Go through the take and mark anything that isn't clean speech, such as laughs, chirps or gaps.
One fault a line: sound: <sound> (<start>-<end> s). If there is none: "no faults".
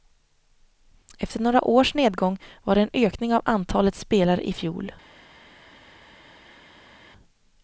no faults